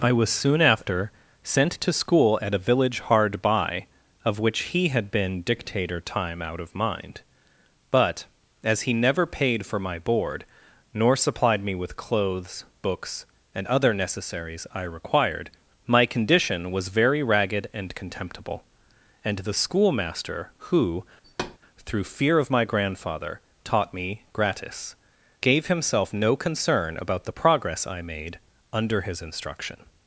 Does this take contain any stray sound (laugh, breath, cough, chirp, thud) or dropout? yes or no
yes